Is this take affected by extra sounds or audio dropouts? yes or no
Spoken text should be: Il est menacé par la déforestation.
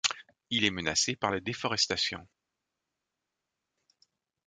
no